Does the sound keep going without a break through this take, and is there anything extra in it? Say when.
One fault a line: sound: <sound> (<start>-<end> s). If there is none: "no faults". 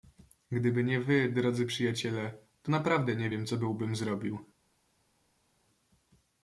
no faults